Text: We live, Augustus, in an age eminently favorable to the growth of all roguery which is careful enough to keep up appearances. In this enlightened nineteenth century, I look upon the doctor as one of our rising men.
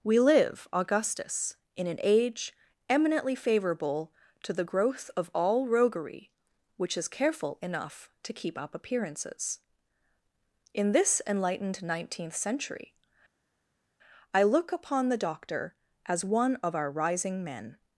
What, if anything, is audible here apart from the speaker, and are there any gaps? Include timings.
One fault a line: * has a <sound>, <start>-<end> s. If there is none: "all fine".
all fine